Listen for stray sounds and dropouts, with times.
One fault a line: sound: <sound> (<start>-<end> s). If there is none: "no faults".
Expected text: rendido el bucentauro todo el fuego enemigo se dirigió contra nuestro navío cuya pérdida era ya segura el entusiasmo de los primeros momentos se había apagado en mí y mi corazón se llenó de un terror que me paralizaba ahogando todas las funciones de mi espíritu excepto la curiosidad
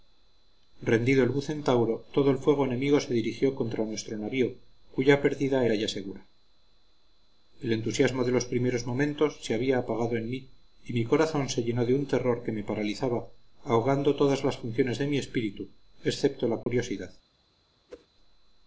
sound: dropout (16.6-16.7 s)
sound: whoosh (17.9-18.1 s)